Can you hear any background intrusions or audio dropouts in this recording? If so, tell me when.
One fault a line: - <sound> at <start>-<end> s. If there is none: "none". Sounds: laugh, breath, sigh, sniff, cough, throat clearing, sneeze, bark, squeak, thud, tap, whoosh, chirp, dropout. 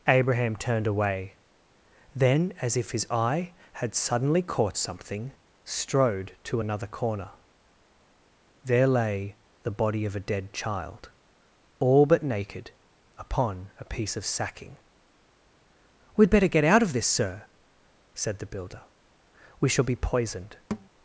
- thud at 20.7-20.9 s